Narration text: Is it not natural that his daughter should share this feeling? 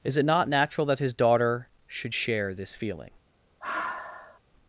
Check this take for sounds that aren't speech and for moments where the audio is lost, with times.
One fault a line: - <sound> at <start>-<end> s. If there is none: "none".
- sigh at 3.6-4.4 s